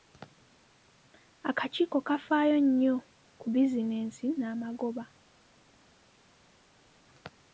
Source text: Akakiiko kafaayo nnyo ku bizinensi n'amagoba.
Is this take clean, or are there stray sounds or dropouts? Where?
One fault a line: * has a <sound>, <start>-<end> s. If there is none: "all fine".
all fine